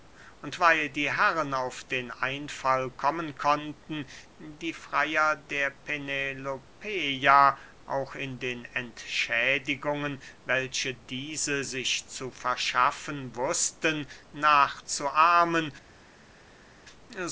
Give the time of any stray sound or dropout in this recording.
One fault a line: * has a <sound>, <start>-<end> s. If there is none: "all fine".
all fine